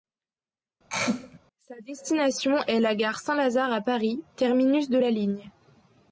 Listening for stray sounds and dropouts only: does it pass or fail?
fail